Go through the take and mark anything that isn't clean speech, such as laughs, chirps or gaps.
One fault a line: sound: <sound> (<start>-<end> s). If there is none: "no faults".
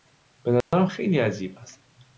sound: dropout (0.6-0.7 s)